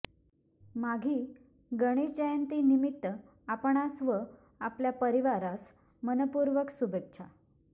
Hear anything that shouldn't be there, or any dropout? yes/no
no